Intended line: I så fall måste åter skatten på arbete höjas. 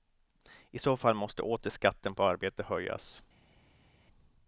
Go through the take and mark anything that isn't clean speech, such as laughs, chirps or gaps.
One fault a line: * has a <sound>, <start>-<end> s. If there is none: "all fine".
all fine